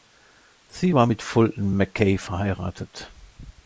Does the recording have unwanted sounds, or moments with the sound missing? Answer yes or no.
no